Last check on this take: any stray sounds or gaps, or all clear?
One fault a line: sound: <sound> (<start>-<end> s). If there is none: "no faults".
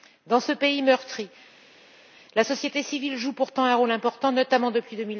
no faults